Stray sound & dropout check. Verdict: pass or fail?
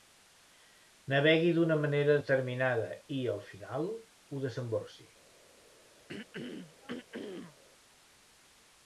fail